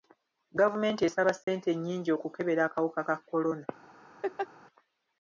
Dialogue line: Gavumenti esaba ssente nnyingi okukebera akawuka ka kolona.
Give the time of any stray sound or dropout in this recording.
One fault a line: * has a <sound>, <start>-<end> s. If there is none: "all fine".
* has a dropout, 1.4-1.5 s
* has a laugh, 4.2-4.5 s